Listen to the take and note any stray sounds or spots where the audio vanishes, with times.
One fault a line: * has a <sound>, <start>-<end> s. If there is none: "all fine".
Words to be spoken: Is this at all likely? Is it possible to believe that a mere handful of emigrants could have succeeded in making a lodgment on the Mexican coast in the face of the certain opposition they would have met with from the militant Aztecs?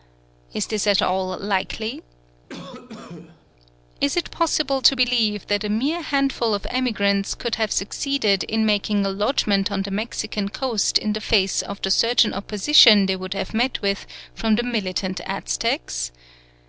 * has a cough, 2.5-3.4 s